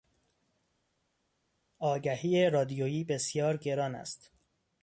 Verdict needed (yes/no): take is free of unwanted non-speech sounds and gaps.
yes